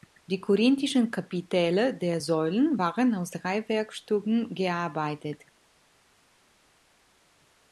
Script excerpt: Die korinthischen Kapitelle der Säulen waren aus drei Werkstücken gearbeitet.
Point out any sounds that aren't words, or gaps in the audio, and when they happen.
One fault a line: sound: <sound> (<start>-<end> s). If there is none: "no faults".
no faults